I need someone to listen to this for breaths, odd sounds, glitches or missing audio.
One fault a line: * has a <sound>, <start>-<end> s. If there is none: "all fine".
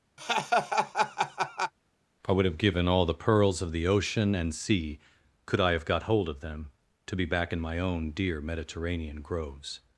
* has a laugh, 0.2-1.7 s